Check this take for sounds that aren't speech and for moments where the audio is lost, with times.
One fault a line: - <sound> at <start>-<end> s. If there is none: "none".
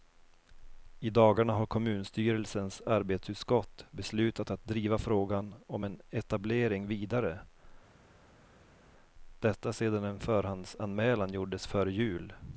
none